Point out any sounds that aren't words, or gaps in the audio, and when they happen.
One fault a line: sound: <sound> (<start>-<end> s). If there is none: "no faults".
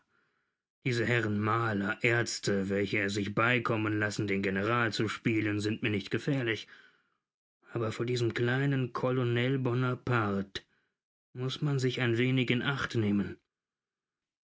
no faults